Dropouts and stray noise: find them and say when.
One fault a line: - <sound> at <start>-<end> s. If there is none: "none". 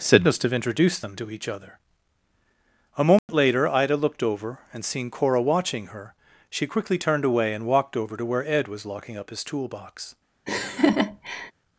- dropout at 3.2-3.3 s
- laugh at 10.5-11.5 s